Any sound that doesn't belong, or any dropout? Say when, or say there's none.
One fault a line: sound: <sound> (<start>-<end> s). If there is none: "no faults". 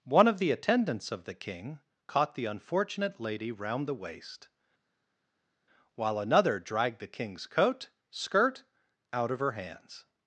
no faults